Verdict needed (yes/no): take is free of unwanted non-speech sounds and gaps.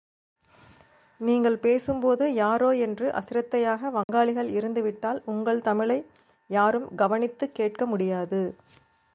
no